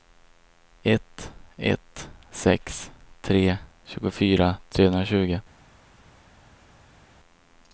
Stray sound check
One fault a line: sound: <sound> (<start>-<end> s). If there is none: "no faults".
no faults